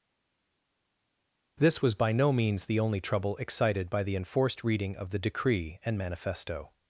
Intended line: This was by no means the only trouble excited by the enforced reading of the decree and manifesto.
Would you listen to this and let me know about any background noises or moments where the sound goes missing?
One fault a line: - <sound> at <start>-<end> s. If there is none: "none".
none